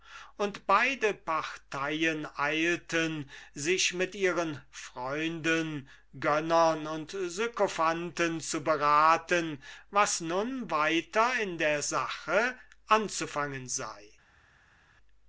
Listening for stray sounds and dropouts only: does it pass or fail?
pass